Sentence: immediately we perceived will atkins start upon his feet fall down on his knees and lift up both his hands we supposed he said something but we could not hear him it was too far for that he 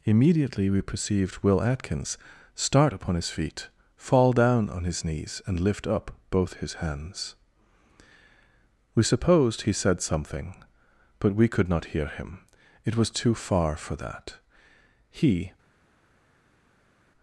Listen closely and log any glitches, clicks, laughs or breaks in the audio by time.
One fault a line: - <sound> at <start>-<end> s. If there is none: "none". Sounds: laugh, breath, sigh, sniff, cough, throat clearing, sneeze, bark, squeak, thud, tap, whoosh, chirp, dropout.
none